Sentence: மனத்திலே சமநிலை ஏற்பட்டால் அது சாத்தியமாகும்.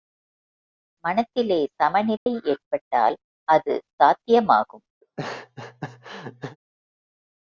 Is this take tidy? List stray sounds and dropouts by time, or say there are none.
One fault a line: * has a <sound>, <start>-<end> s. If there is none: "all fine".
* has a dropout, 2.2-2.3 s
* has a laugh, 5.0-6.6 s